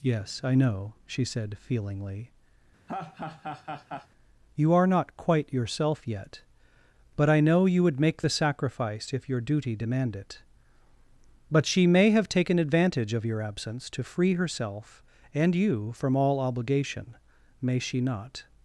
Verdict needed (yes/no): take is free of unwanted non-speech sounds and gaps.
no